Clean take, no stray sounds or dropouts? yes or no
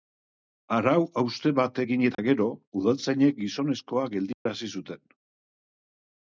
no